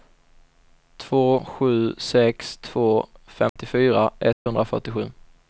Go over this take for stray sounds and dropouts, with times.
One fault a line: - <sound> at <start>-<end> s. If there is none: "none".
- dropout at 3.5-3.6 s
- dropout at 4.3-4.5 s